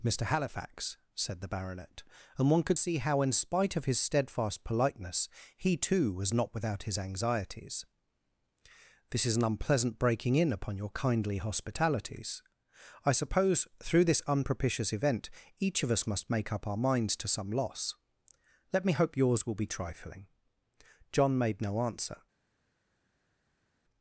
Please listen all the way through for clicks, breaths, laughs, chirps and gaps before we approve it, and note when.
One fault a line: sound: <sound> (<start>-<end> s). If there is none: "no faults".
no faults